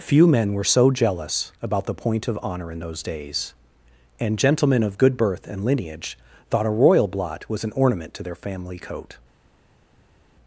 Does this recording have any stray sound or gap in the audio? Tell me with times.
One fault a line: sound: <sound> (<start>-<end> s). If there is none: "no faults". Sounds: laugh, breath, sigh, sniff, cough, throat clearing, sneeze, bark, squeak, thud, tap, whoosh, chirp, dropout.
no faults